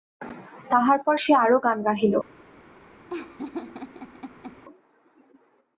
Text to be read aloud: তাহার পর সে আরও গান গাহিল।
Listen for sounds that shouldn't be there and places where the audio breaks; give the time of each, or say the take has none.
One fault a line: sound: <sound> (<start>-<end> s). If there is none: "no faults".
sound: laugh (3.1-4.6 s)